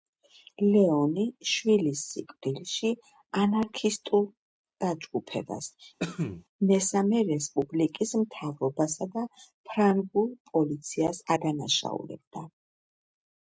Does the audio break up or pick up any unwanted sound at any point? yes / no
yes